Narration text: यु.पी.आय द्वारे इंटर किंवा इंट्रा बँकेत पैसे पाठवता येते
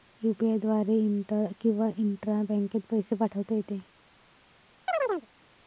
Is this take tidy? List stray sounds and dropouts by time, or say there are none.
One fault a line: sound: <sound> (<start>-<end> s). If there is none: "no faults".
sound: chirp (4.9-5.3 s)